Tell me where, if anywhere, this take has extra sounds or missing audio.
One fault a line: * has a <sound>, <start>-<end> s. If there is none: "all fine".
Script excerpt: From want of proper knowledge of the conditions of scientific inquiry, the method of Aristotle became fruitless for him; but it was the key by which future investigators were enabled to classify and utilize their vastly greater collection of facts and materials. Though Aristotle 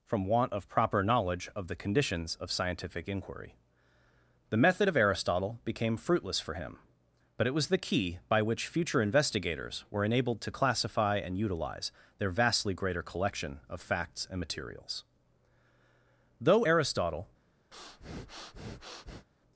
* has a breath, 17.7-19.3 s